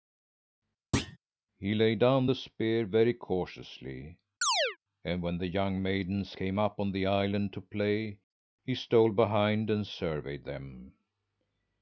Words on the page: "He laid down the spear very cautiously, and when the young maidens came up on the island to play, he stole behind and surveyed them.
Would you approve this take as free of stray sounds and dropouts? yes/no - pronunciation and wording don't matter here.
no